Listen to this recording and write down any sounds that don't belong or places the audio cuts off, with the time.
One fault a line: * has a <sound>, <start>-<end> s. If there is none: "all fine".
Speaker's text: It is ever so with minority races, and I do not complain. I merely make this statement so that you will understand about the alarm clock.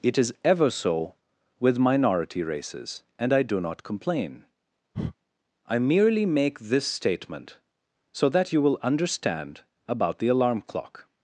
* has a breath, 4.9-5.1 s